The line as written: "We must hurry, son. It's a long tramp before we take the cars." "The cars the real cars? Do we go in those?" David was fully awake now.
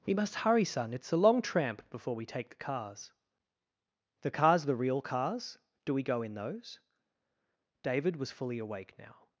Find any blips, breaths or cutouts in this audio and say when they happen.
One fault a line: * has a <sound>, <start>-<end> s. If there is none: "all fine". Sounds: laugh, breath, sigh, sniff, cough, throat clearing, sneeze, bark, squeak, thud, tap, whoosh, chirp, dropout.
all fine